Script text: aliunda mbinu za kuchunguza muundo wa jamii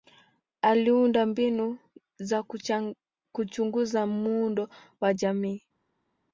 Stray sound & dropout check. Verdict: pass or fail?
pass